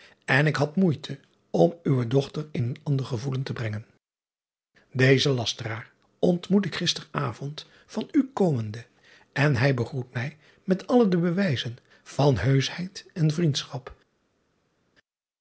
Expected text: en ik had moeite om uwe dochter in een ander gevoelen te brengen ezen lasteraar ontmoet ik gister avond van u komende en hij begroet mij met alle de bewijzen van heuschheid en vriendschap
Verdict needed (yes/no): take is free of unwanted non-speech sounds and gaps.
yes